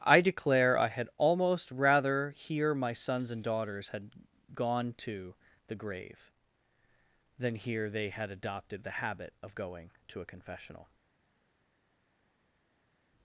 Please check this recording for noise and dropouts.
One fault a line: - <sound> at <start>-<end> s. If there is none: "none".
none